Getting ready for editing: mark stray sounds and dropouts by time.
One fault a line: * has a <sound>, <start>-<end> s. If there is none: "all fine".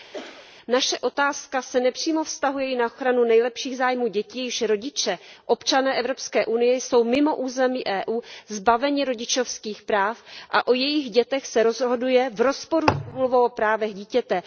* has a cough, 0.1-0.5 s